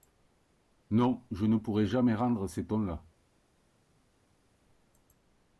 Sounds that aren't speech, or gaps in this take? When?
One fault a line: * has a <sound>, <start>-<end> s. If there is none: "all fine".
all fine